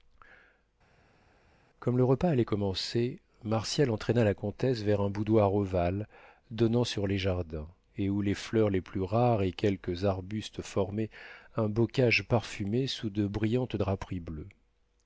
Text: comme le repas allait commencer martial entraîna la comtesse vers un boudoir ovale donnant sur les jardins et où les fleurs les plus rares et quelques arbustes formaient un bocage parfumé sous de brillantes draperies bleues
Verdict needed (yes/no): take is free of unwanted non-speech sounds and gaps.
yes